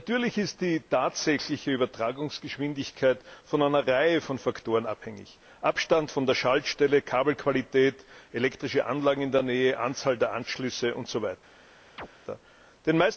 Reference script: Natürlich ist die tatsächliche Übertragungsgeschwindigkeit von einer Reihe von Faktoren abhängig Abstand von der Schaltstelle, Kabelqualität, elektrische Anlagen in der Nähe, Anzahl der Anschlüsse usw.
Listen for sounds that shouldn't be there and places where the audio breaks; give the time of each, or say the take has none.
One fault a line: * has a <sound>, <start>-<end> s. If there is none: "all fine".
* has a chirp, 12.0-12.1 s